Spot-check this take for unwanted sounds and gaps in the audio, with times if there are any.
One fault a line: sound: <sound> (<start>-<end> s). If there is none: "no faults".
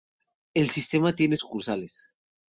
no faults